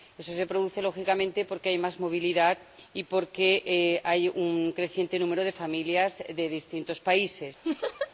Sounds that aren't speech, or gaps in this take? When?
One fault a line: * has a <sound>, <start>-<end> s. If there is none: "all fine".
* has a laugh, 7.6-8.1 s